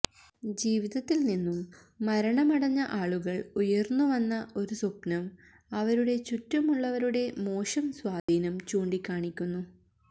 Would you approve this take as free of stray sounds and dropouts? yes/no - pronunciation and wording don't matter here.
no